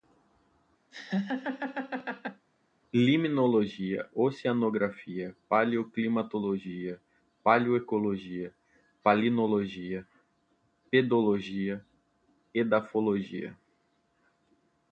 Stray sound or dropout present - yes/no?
yes